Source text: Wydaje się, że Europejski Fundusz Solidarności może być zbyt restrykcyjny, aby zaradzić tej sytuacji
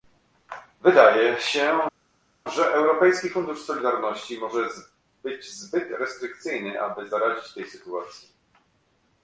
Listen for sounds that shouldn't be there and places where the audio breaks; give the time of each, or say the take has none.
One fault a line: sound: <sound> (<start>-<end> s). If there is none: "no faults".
no faults